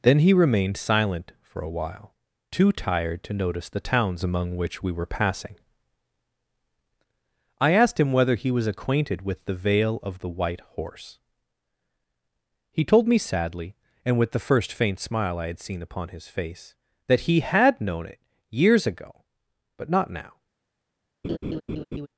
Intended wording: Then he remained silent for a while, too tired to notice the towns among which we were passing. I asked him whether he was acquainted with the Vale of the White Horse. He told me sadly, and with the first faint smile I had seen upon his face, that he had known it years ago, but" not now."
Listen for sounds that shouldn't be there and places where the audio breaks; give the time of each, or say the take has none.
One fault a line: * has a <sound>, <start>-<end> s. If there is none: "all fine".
* has a laugh, 21.2-22.1 s